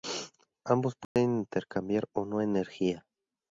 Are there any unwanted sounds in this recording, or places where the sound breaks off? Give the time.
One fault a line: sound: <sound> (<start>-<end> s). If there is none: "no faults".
sound: dropout (1.0-1.2 s)